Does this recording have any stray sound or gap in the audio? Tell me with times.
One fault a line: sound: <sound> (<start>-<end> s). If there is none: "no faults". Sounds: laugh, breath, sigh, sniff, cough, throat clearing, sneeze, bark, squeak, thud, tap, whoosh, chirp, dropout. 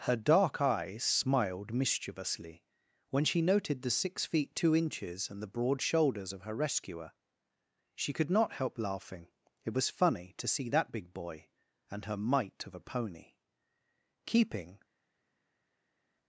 no faults